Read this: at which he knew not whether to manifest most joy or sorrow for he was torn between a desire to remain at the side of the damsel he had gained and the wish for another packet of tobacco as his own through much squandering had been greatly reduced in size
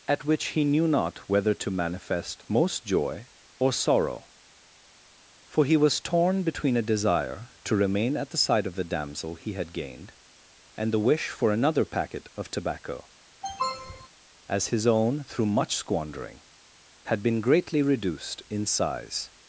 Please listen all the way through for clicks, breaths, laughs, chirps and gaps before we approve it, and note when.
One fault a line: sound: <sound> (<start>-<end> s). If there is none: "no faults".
sound: sniff (13.4-14.1 s)